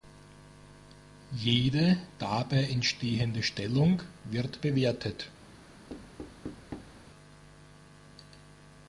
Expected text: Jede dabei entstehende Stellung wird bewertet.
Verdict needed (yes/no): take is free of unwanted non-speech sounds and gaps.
no